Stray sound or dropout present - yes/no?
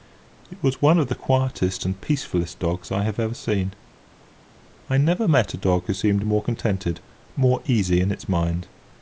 no